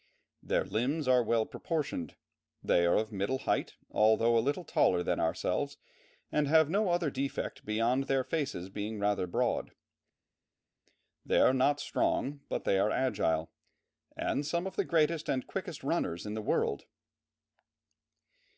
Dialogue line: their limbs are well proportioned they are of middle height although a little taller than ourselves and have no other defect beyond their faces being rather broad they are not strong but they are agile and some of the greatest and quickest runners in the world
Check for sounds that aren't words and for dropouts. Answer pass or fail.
pass